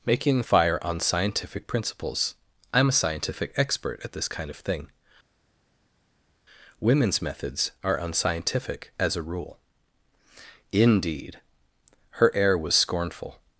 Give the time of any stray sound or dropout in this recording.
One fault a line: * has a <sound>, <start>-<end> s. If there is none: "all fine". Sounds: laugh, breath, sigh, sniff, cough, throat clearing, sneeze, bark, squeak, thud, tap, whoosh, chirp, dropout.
all fine